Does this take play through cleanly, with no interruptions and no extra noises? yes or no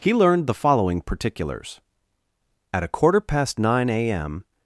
yes